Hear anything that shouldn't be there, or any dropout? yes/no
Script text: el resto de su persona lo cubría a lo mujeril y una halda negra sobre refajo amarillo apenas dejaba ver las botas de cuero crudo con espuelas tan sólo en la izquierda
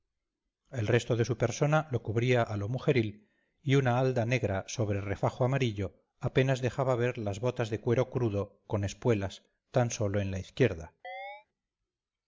yes